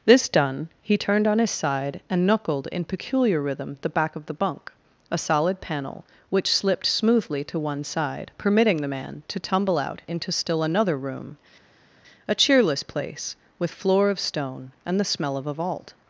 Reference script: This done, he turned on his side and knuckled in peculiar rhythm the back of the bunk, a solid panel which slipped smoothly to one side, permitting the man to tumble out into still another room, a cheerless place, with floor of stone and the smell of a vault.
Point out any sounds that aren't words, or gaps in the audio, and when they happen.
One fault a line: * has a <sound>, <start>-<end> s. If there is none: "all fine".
all fine